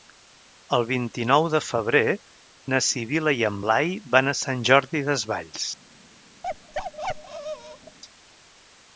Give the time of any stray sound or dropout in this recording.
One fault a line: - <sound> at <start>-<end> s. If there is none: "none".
- bark at 6.4-8.0 s